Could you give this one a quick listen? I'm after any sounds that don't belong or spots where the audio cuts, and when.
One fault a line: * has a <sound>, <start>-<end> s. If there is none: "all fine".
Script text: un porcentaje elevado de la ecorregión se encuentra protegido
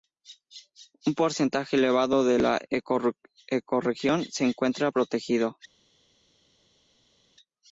all fine